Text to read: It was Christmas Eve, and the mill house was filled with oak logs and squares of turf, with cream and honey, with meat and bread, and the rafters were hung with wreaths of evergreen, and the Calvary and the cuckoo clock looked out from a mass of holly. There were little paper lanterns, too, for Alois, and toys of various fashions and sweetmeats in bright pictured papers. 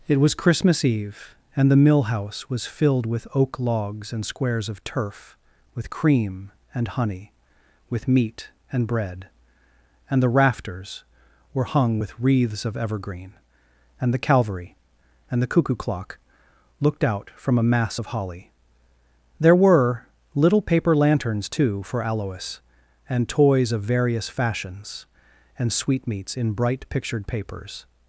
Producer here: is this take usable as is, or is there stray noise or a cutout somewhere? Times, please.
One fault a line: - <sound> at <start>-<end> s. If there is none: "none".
none